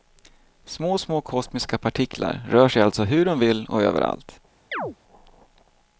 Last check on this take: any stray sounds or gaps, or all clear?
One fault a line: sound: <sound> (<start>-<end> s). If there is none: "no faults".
sound: chirp (4.7-5.0 s)